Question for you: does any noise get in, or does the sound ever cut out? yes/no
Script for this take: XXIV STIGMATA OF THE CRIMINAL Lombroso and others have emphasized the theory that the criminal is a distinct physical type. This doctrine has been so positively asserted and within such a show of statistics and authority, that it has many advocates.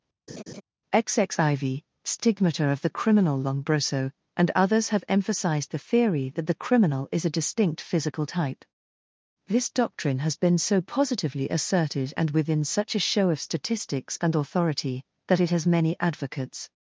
yes